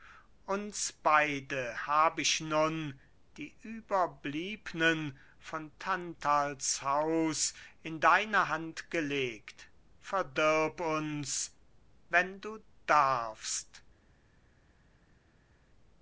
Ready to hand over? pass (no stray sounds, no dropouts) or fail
pass